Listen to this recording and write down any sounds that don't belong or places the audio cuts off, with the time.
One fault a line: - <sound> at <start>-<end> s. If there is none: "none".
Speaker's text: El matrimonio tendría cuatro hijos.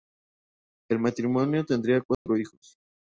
- dropout at 2.1-2.3 s